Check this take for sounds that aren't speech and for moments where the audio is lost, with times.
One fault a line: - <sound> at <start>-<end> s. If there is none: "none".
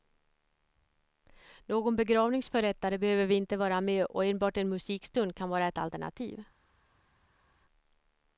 none